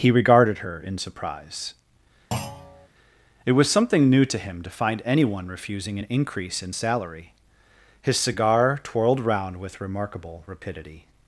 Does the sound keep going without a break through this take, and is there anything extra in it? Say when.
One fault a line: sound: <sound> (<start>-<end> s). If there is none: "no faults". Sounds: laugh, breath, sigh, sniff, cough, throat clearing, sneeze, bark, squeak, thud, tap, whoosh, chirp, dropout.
sound: thud (2.3-2.9 s)